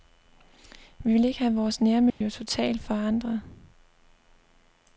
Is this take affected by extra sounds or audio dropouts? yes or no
yes